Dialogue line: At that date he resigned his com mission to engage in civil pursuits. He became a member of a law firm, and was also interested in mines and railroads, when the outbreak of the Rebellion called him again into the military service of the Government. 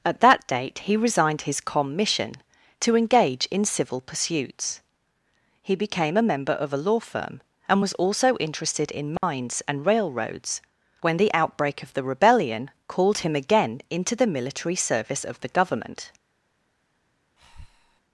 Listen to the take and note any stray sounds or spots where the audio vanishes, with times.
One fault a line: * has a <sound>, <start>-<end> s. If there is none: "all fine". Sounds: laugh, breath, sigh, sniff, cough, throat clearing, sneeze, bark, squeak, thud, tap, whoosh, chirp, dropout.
* has a dropout, 9.2-9.2 s
* has a breath, 17.4-18.0 s